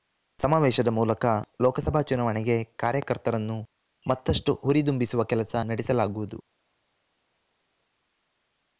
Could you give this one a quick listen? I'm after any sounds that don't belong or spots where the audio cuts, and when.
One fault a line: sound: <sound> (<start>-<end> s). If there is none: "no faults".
no faults